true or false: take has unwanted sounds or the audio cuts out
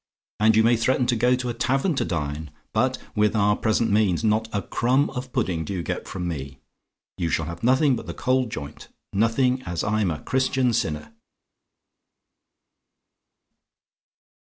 false